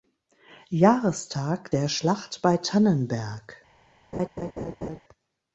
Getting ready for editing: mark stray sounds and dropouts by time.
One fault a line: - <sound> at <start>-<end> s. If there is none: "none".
- laugh at 4.1-5.0 s